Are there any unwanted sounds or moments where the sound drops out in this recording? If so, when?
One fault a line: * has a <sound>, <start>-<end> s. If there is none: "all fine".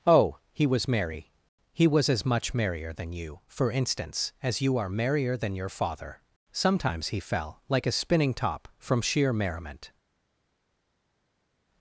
all fine